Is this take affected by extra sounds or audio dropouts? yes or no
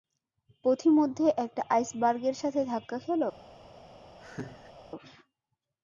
yes